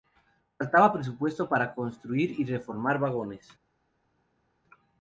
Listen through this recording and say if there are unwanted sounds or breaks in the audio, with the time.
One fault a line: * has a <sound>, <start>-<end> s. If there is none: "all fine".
all fine